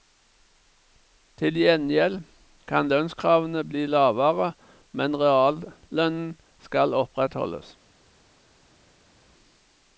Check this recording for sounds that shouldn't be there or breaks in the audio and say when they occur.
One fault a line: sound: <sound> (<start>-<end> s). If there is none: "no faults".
no faults